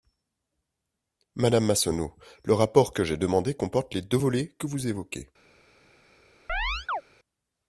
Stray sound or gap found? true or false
true